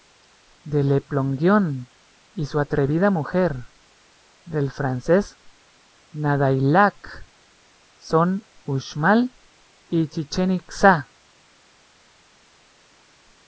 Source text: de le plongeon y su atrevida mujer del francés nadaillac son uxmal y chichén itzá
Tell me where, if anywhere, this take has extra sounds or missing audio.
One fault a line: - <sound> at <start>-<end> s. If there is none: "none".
none